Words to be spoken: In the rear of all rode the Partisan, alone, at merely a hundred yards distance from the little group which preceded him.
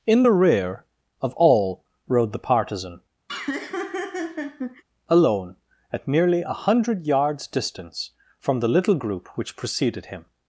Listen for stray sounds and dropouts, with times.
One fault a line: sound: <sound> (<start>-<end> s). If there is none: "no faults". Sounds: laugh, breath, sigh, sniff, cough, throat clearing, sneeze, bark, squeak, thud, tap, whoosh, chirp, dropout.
sound: laugh (3.3-4.8 s)